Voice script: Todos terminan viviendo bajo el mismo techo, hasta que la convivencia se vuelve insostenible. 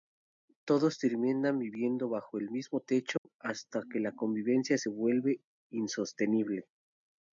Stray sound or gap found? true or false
true